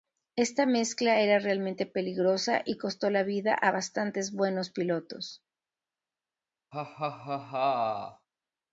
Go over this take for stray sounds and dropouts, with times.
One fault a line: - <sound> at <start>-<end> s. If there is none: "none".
- laugh at 6.7-8.3 s